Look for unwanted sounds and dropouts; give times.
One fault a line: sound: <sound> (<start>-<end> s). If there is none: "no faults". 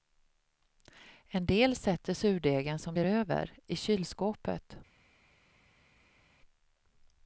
no faults